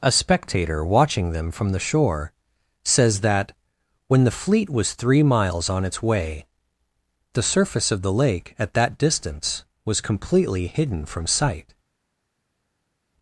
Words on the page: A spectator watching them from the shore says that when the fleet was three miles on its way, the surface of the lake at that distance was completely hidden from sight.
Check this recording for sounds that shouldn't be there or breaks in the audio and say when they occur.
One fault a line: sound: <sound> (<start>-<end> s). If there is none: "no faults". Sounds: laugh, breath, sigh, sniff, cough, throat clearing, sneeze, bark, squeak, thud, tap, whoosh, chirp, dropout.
no faults